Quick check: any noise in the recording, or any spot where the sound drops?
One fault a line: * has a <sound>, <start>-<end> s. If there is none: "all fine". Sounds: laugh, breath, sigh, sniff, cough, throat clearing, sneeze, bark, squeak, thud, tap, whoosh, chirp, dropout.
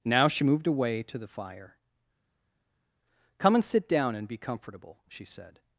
all fine